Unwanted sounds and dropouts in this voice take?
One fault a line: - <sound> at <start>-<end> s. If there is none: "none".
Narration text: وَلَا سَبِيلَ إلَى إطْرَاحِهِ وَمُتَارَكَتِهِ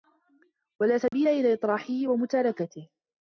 - dropout at 1.1-1.1 s